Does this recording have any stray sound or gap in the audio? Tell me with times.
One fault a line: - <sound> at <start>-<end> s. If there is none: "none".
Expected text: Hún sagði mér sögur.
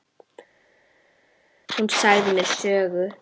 none